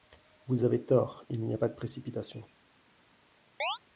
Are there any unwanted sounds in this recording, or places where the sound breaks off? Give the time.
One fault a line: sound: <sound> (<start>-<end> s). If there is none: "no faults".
sound: chirp (3.6-3.8 s)